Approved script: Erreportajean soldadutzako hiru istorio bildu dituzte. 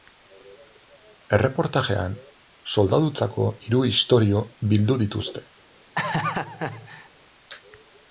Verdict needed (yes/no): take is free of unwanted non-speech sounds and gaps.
no